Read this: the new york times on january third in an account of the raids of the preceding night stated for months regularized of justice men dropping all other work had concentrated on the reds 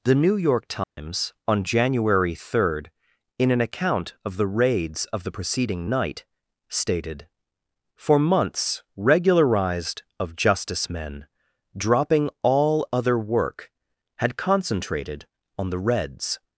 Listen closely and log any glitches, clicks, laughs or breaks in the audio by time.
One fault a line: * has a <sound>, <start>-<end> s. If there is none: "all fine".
* has a dropout, 0.8-1.0 s